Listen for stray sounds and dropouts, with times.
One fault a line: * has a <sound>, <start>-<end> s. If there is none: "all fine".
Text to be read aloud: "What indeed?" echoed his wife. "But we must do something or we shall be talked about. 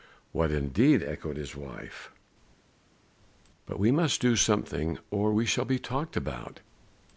all fine